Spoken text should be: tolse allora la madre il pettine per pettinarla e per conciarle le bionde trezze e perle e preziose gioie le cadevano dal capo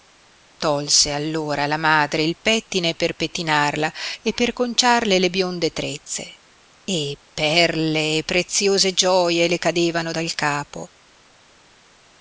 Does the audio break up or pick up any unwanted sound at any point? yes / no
no